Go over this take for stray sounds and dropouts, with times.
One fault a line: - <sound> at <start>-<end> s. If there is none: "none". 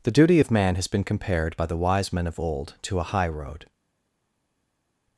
none